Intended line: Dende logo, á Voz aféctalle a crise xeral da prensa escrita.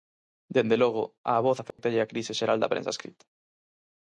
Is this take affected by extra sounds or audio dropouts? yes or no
yes